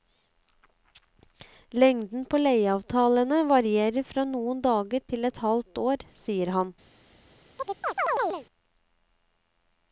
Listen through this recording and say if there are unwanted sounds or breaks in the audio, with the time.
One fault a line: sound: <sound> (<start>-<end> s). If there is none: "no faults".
sound: chirp (7.6-8.5 s)